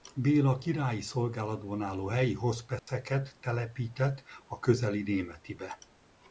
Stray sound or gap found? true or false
true